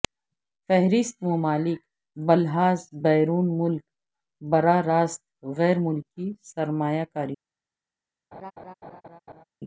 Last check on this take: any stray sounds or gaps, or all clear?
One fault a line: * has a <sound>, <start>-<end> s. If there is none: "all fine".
* has a laugh, 8.3-9.4 s